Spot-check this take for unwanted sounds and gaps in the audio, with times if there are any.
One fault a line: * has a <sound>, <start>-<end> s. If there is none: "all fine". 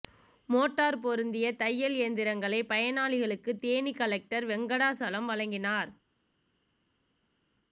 all fine